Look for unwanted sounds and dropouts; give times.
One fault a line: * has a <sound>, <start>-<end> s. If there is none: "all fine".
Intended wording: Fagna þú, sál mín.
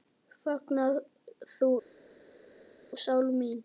all fine